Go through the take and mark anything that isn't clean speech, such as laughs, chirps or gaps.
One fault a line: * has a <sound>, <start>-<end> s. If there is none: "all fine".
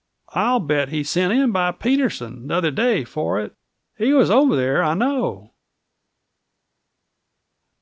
all fine